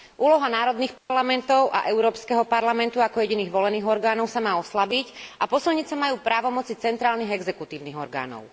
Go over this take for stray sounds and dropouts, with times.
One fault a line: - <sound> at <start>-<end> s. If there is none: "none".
- dropout at 1.0-1.1 s